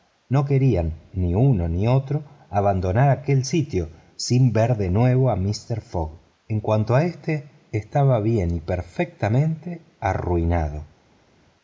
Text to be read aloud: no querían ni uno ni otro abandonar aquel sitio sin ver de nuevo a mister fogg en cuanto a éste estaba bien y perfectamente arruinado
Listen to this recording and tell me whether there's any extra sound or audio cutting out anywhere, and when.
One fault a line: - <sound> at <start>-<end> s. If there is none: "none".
none